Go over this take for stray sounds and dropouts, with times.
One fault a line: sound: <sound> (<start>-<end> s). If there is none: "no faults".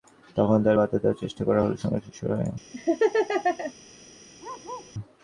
sound: laugh (2.7-3.7 s)
sound: bark (4.4-4.9 s)